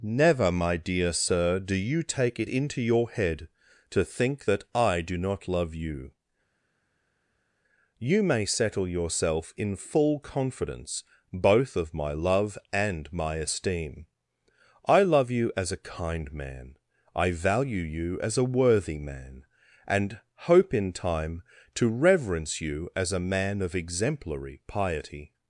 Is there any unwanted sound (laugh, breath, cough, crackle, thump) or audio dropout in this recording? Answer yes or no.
no